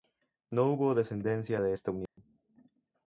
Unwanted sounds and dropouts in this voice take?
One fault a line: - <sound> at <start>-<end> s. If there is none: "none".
- dropout at 2.1-2.2 s